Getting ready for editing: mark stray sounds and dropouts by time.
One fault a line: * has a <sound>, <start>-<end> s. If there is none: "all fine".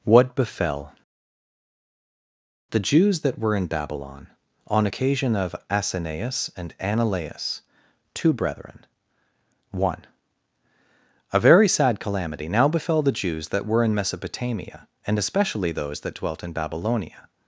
all fine